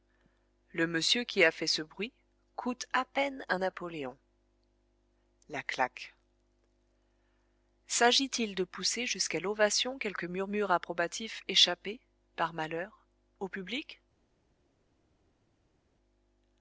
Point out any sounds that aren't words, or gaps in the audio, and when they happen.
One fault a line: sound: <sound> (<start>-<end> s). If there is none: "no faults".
no faults